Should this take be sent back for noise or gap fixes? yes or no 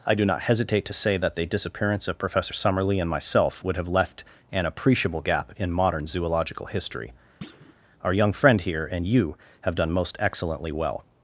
yes